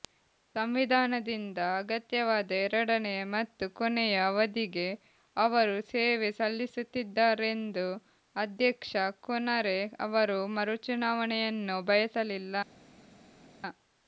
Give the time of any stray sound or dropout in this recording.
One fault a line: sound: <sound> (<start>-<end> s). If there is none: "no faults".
no faults